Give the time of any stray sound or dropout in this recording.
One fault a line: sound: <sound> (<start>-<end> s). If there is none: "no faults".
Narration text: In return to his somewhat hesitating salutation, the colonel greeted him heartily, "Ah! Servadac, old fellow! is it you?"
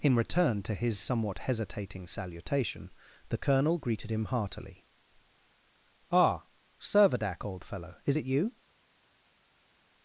no faults